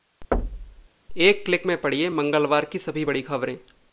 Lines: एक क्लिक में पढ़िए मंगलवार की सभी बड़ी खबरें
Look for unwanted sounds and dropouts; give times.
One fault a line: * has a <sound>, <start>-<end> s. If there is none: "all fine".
* has a thud, 0.3-0.9 s